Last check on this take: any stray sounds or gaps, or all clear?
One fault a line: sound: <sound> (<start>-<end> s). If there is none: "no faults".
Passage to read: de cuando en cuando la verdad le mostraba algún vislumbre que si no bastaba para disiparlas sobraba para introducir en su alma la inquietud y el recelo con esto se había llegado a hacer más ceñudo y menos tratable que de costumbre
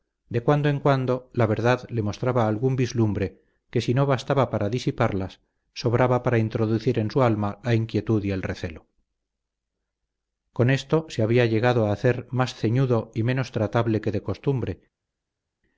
no faults